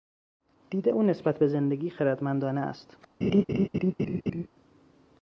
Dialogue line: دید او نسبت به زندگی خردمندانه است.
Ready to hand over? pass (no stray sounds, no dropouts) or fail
fail